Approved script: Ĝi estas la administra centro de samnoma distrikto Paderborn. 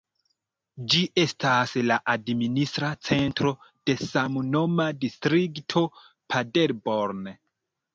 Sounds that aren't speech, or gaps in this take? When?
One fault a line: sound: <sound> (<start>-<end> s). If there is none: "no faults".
no faults